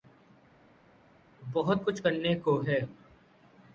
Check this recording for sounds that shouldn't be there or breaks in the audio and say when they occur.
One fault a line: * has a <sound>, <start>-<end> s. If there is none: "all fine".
all fine